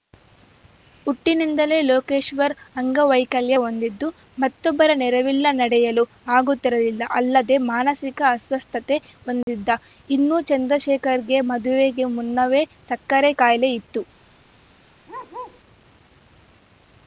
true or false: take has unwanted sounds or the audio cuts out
true